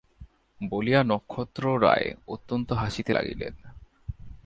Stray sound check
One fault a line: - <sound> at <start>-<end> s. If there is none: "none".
none